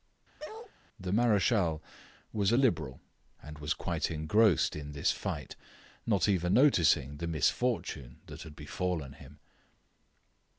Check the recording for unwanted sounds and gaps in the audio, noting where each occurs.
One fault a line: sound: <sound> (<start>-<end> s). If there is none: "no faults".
sound: bark (0.4-0.7 s)